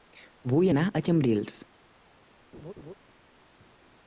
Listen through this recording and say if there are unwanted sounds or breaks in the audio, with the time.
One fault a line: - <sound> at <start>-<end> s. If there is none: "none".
- laugh at 2.5-2.9 s